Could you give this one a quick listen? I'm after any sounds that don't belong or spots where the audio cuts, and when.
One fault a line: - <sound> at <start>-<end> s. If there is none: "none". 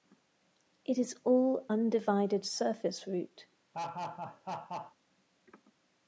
- laugh at 3.7-4.9 s